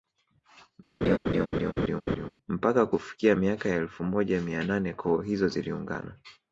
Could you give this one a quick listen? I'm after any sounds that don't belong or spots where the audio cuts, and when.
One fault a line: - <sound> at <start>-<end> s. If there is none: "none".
- laugh at 1.0-2.3 s